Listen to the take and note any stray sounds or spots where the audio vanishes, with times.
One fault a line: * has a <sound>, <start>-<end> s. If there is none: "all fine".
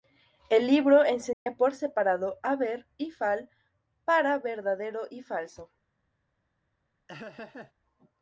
* has a dropout, 1.3-1.5 s
* has a laugh, 7.1-7.7 s